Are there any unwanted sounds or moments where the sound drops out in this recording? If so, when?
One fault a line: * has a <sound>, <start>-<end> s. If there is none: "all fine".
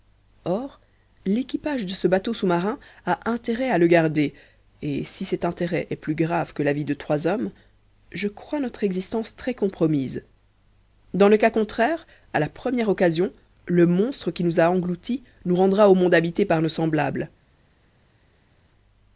all fine